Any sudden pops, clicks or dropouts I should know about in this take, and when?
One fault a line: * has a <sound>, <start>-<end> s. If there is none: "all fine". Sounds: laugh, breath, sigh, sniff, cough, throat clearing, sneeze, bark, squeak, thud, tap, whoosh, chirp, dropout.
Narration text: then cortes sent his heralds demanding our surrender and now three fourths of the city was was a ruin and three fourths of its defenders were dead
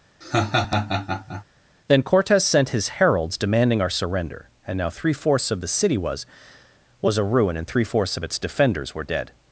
* has a laugh, 0.2-1.4 s